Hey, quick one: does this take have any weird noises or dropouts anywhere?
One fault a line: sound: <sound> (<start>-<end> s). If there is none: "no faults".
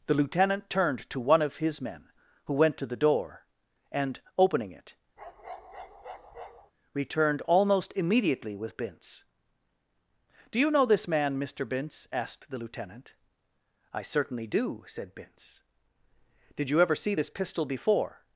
sound: bark (5.2-6.7 s)